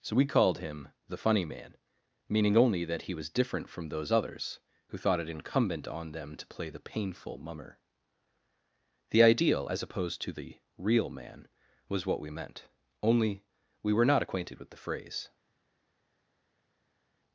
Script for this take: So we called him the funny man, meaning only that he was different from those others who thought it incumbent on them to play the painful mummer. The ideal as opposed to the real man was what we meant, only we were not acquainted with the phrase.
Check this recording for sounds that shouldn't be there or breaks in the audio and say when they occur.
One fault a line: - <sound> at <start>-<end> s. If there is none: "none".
none